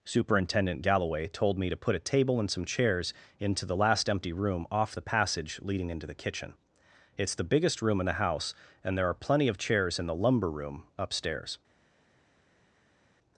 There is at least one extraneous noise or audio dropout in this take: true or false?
false